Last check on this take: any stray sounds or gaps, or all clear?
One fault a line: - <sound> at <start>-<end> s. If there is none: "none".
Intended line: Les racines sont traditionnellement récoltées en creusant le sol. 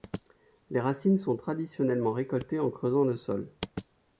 none